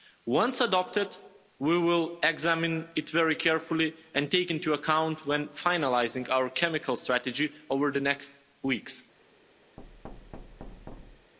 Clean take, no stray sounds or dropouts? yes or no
no